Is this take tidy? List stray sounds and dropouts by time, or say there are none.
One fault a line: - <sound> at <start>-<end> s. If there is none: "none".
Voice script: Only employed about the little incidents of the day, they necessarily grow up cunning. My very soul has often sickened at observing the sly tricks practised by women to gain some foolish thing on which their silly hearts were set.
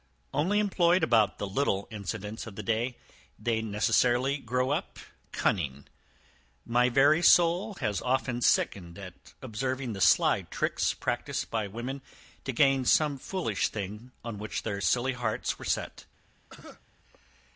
- cough at 16.5-16.8 s